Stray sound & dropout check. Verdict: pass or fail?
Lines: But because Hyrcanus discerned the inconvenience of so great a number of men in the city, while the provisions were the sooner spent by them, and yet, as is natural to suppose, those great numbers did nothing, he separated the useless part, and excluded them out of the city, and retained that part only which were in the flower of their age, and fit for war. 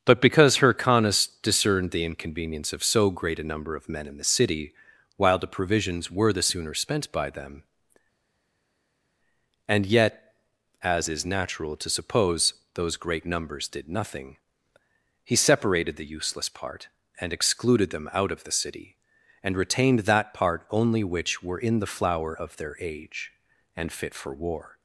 pass